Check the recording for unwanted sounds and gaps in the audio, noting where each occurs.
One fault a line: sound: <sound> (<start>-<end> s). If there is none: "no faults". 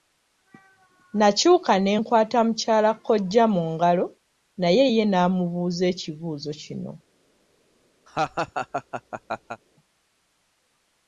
sound: laugh (8.1-9.6 s)